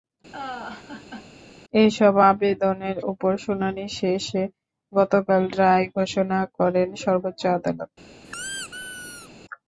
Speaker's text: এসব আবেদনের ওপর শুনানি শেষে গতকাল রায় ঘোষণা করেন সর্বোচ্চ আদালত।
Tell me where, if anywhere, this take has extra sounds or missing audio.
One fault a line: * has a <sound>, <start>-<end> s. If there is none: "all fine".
* has a laugh, 0.3-1.3 s
* has a squeak, 8.2-9.3 s